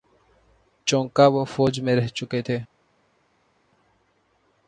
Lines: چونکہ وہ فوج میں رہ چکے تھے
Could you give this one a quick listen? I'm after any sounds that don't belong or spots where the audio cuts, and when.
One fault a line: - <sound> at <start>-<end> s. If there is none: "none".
none